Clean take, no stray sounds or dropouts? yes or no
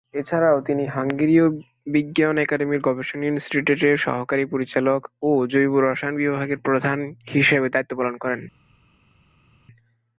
yes